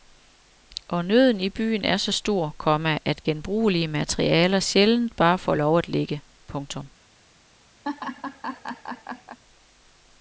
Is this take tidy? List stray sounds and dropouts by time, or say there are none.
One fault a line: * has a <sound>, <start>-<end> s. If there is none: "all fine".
* has a laugh, 7.8-9.4 s